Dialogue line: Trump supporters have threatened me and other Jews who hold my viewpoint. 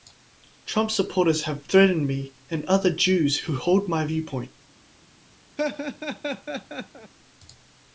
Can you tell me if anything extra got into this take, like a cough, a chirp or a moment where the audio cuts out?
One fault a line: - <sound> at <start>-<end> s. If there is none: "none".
- laugh at 5.6-7.1 s